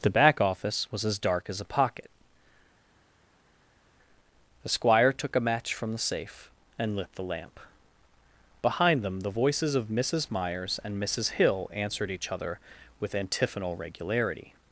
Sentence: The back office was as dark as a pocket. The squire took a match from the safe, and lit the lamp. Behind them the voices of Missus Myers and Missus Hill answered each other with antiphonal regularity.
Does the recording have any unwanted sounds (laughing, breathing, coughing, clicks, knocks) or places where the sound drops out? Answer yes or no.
no